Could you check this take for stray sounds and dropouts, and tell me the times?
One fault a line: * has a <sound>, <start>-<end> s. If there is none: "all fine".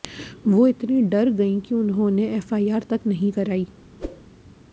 * has a whoosh, 4.0-4.2 s